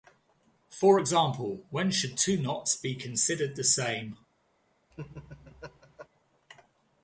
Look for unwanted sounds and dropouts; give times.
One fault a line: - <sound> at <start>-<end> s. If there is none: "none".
- laugh at 4.9-6.1 s